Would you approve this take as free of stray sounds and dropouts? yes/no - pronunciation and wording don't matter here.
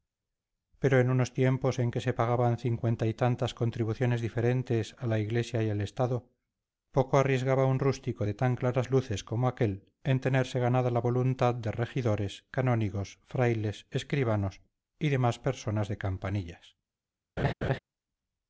no